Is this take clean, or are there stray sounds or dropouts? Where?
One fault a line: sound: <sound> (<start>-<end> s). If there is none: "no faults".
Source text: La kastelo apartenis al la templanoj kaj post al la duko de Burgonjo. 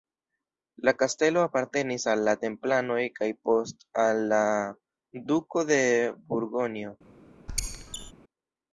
sound: squeak (7.5-8.1 s)